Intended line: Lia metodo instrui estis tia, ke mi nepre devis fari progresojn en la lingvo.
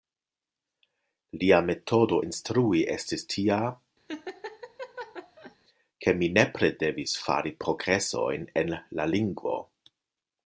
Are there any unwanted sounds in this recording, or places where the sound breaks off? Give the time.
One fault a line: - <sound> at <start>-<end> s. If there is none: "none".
- laugh at 4.1-5.6 s